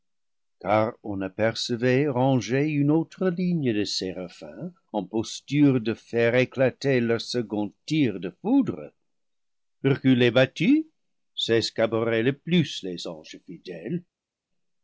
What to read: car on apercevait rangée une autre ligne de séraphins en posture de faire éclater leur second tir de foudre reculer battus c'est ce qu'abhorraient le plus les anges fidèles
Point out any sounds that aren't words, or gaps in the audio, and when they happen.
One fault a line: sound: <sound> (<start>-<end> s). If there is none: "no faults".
no faults